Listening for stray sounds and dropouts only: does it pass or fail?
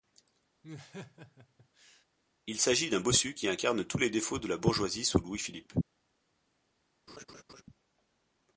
fail